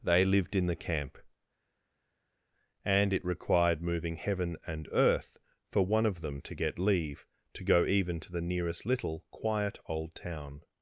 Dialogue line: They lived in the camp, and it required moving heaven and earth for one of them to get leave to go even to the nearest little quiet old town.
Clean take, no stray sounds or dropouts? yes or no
yes